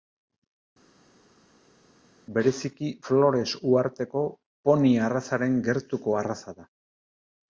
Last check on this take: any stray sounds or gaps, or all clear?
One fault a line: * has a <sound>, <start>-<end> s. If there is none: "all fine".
all fine